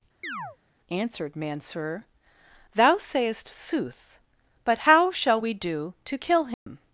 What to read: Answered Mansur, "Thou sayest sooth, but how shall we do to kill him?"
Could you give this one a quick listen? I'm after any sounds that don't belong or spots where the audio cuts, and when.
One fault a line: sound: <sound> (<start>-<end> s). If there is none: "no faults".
sound: chirp (0.2-0.6 s)
sound: dropout (6.5-6.7 s)